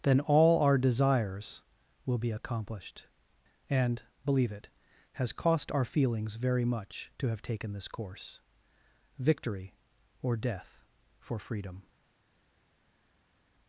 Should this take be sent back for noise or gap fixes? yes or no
no